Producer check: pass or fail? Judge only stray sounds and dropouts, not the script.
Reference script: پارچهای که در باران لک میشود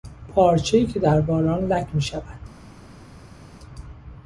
pass